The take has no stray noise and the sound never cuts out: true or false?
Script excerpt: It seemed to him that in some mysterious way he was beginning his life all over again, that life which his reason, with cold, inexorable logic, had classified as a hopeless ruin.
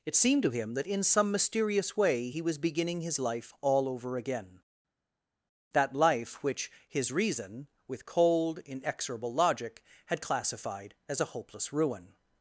true